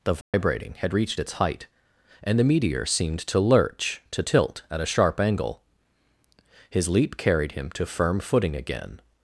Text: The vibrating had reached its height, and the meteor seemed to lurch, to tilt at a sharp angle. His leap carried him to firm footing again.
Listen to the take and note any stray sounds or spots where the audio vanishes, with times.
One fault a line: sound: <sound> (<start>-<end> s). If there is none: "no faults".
sound: dropout (0.2-0.3 s)